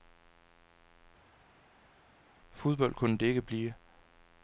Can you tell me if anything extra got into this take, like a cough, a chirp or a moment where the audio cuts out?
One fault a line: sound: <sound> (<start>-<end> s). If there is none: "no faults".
no faults